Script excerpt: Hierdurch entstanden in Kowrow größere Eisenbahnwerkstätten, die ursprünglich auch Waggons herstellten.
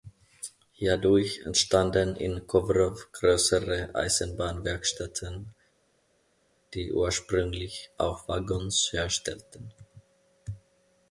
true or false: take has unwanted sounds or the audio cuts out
false